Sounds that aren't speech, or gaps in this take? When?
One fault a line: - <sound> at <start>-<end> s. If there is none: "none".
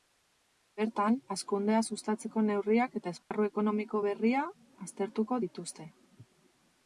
- dropout at 3.2-3.3 s